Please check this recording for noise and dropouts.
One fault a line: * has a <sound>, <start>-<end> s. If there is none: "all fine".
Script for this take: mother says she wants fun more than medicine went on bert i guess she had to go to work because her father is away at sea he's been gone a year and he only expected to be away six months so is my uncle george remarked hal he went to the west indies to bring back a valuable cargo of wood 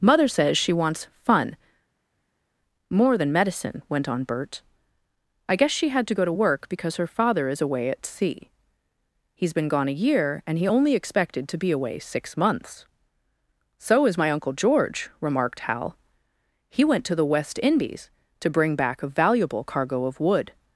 all fine